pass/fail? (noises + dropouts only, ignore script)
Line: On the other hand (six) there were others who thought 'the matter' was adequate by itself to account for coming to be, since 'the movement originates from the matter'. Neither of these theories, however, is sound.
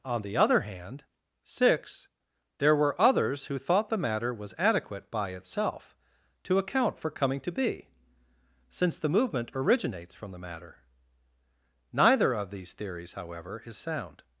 pass